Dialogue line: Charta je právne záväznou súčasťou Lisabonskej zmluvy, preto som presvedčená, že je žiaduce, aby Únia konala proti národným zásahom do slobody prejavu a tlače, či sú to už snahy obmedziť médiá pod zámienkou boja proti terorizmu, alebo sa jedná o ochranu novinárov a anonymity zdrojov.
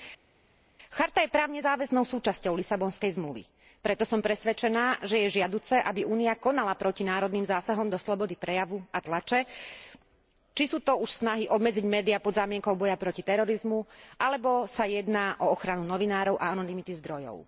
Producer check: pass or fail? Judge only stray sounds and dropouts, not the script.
pass